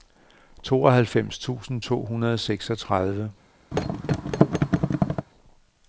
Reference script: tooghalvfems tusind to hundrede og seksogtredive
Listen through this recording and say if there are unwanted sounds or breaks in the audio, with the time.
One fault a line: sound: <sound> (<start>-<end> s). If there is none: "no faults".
sound: thud (3.7-5.3 s)